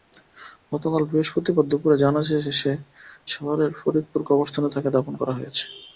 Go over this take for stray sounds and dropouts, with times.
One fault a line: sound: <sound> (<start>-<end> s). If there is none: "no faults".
no faults